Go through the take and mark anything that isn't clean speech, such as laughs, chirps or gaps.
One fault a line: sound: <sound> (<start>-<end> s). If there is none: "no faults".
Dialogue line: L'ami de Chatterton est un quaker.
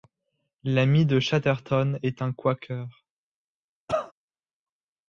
sound: cough (3.9-4.1 s)